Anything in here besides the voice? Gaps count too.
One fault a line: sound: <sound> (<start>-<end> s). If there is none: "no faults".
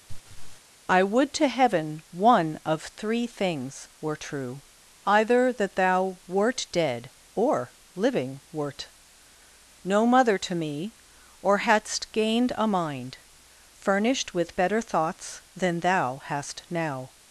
sound: laugh (0.1-0.6 s)